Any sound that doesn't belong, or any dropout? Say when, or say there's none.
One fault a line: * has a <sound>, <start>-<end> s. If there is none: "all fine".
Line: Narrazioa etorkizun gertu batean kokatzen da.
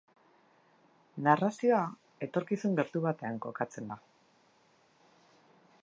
all fine